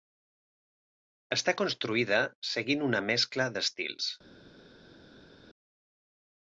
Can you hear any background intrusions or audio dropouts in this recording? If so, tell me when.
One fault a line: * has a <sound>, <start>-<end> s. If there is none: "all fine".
all fine